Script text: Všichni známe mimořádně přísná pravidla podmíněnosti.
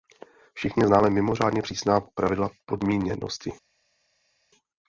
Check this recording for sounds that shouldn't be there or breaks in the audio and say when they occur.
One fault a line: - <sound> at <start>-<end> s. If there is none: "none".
none